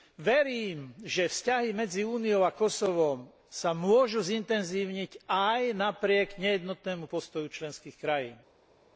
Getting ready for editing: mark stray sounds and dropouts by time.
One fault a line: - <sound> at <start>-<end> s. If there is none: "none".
none